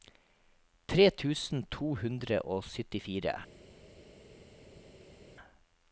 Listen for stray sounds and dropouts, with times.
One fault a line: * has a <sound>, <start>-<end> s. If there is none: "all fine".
all fine